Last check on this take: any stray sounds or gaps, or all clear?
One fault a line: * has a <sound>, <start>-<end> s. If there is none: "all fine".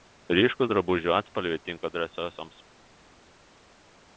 all fine